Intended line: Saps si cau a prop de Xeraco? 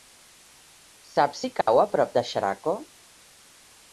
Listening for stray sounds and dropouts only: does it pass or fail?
fail